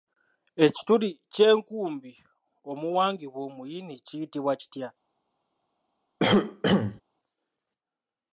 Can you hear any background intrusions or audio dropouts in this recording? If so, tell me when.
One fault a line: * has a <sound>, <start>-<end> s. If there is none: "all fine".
* has a cough, 6.2-7.0 s